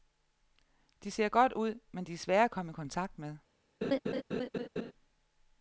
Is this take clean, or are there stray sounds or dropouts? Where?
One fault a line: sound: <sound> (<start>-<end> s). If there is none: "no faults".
sound: laugh (3.8-4.9 s)